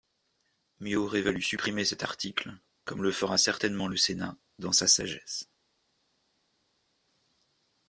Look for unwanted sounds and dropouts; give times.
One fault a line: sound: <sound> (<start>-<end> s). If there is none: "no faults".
no faults